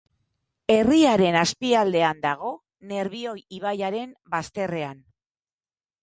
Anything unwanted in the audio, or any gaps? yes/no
no